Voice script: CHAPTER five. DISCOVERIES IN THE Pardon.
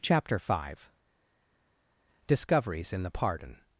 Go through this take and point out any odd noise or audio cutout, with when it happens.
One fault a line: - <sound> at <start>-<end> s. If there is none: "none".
none